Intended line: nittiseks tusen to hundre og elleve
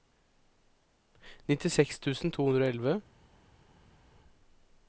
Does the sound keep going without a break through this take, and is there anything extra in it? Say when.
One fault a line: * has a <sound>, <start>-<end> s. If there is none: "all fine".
all fine